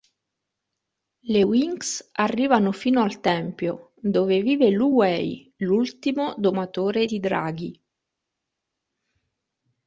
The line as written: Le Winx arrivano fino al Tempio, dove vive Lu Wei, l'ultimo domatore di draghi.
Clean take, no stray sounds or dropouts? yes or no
yes